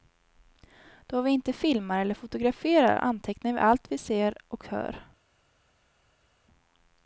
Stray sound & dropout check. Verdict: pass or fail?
pass